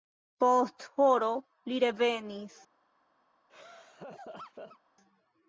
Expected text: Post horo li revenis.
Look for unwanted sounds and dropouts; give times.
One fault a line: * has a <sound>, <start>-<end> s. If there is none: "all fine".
* has a laugh, 3.5-4.8 s